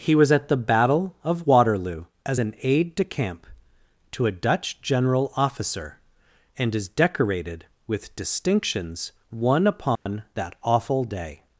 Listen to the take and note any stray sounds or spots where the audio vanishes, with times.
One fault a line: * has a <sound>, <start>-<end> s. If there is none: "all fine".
* has a dropout, 10.0-10.1 s